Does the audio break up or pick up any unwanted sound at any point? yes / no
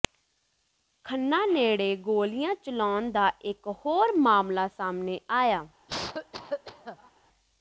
yes